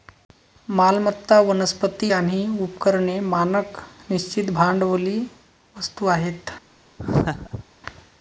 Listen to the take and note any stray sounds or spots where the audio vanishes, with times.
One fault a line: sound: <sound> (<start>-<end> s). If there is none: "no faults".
sound: laugh (7.0-7.6 s)